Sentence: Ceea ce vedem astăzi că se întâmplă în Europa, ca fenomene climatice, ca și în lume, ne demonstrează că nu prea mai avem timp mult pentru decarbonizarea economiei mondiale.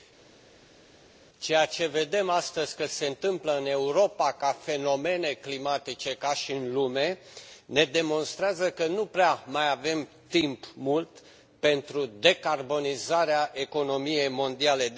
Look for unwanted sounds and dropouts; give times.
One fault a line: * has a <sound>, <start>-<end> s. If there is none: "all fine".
all fine